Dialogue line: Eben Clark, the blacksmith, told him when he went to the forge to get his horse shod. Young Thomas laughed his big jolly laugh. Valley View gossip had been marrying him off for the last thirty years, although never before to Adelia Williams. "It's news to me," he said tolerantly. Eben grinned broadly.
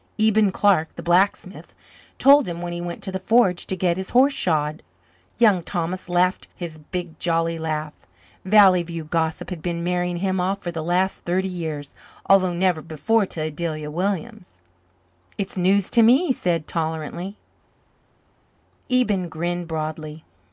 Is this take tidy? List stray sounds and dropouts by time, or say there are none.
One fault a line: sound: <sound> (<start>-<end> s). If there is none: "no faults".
no faults